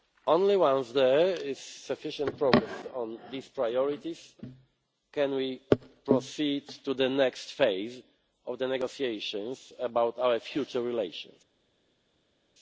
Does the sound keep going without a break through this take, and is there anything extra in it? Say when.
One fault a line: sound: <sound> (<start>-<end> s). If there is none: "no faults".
no faults